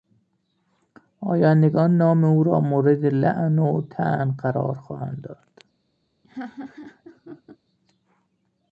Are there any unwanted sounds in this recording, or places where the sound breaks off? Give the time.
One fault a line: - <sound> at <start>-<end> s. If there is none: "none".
- laugh at 6.2-7.6 s